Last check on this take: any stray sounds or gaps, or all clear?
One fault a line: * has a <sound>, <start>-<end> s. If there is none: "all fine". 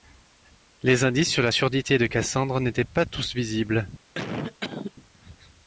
* has a cough, 4.1-4.9 s